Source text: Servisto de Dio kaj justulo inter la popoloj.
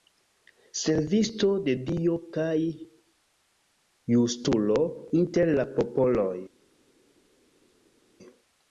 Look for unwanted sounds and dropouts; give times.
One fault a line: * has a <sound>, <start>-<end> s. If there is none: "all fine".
all fine